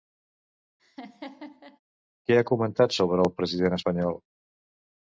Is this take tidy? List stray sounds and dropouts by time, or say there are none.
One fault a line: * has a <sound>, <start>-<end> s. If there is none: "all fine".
* has a laugh, 0.8-1.8 s